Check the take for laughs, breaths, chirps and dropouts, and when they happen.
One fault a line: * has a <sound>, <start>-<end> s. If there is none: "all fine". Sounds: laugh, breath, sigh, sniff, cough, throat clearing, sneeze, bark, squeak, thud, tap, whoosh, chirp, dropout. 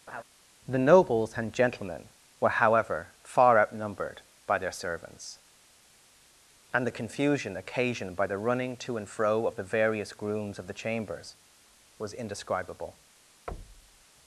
* has a laugh, 0.1-0.2 s
* has a thud, 13.5-14.0 s